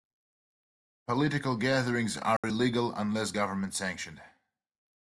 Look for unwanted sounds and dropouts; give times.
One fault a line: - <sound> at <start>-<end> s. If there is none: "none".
- dropout at 2.4-2.4 s